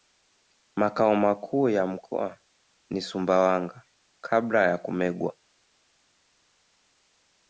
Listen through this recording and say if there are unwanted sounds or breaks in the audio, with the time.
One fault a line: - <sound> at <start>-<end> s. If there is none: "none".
none